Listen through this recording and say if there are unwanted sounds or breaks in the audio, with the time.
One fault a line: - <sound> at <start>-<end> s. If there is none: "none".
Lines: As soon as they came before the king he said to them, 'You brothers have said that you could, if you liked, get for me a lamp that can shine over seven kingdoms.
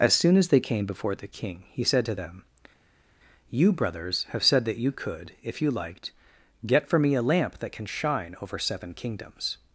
none